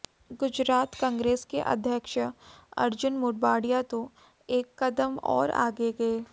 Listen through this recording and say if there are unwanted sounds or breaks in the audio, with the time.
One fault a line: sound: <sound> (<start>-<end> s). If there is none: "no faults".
no faults